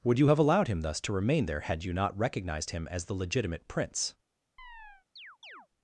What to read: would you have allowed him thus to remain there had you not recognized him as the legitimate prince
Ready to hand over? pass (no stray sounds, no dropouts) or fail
fail